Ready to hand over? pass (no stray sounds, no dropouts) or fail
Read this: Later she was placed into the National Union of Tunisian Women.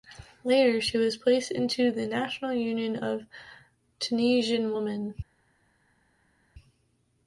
pass